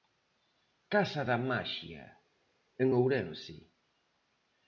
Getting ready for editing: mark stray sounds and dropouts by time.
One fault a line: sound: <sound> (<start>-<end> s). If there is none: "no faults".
no faults